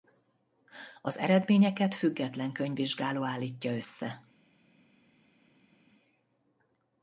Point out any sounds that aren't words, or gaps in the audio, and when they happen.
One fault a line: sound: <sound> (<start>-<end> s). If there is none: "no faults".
no faults